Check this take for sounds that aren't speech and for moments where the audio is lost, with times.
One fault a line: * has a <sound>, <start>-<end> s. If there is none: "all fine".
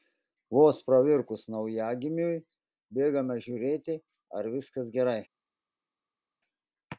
all fine